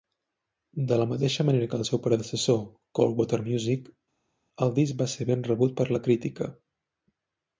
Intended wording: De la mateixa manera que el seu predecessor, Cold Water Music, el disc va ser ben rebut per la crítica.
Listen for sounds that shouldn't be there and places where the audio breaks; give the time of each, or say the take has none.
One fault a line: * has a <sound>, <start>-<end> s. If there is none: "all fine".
all fine